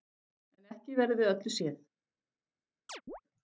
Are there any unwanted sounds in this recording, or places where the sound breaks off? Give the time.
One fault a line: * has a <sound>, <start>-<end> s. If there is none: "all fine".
* has a chirp, 2.9-3.2 s